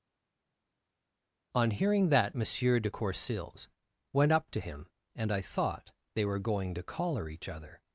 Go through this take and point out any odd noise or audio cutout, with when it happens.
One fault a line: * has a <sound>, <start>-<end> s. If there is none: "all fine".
all fine